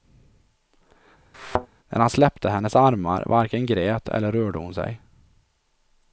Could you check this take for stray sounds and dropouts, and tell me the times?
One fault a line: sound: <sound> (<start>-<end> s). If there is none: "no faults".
sound: thud (1.3-1.7 s)